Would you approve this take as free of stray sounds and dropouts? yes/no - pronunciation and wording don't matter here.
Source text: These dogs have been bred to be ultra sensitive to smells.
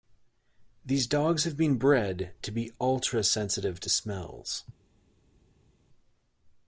yes